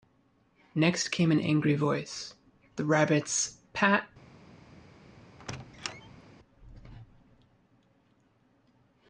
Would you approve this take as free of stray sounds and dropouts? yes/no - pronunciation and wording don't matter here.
no